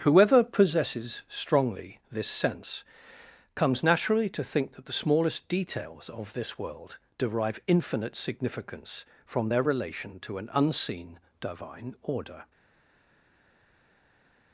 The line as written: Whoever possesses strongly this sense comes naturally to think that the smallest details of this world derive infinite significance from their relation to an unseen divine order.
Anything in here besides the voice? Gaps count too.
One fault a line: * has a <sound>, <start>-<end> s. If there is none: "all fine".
all fine